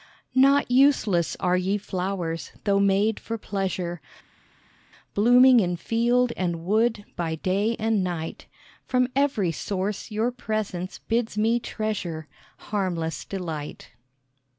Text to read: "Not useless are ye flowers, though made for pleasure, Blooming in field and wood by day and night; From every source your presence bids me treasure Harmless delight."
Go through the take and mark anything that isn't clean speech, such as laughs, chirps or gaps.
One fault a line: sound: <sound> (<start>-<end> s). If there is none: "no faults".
no faults